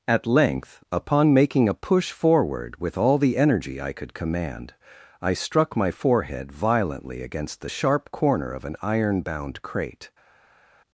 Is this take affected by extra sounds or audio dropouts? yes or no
no